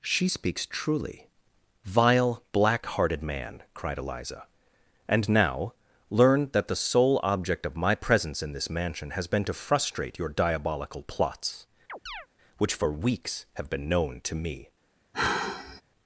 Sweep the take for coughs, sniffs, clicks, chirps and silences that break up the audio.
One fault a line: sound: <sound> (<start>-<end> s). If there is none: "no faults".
sound: chirp (11.9-12.3 s)
sound: sigh (15.1-15.8 s)